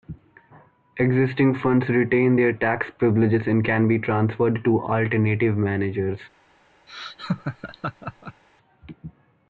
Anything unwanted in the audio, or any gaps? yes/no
yes